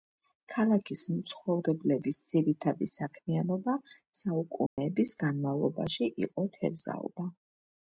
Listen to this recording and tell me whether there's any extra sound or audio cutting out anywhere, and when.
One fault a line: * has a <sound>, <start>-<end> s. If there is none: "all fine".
* has a dropout, 4.7-4.8 s